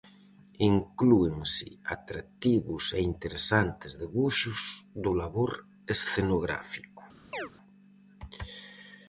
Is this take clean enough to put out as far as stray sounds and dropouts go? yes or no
no